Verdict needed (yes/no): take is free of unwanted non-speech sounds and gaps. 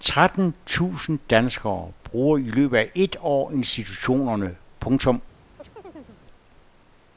no